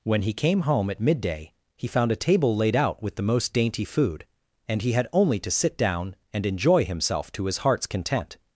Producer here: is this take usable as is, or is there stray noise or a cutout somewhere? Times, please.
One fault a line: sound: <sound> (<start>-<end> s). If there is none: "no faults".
no faults